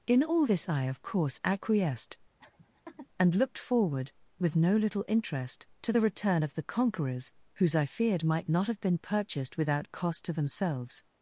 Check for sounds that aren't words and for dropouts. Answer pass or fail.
fail